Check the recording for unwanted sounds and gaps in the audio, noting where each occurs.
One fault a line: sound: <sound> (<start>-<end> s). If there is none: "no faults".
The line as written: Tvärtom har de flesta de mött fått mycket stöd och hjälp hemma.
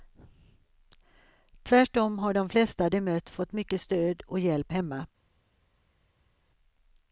no faults